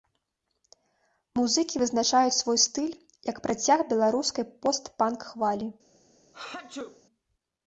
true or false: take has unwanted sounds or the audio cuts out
true